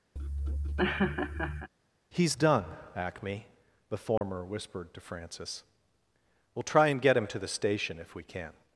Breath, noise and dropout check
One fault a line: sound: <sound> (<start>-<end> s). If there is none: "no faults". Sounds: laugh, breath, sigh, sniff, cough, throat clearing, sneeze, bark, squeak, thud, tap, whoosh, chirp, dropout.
sound: laugh (0.2-1.7 s)
sound: dropout (4.2-4.2 s)